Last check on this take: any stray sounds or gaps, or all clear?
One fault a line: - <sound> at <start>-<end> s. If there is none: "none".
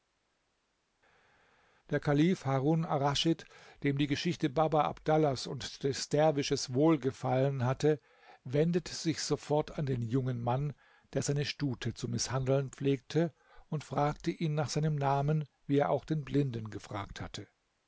none